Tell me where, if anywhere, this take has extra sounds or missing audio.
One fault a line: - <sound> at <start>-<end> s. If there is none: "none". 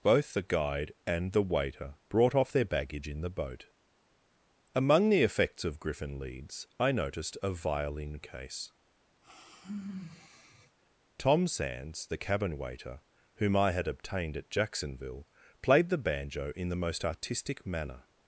- sigh at 9.2-10.8 s